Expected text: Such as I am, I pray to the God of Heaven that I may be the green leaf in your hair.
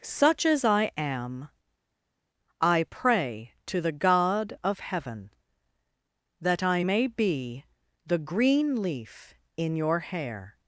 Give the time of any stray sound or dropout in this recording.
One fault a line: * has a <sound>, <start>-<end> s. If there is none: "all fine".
all fine